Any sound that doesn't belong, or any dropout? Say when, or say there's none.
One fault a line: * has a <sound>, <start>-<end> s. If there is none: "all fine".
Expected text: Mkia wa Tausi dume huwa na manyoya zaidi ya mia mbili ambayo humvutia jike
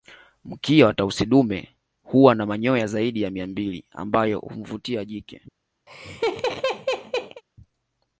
* has a laugh, 5.9-7.4 s